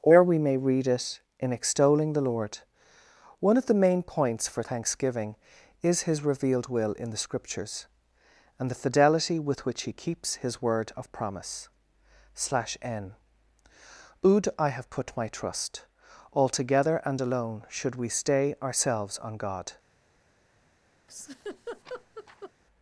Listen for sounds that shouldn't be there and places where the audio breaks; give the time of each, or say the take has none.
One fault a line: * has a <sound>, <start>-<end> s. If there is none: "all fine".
* has a laugh, 21.1-22.5 s